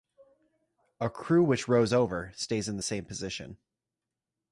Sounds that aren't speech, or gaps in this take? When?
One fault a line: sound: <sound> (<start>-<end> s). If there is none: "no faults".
no faults